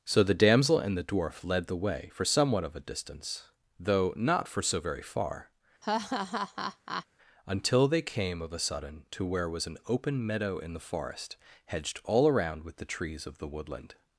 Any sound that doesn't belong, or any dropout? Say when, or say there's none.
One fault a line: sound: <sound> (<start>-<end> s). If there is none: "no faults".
sound: laugh (5.8-7.1 s)